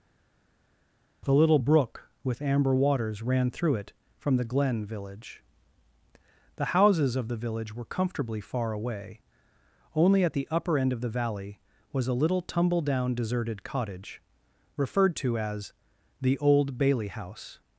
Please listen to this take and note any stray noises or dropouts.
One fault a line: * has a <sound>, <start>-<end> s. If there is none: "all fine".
all fine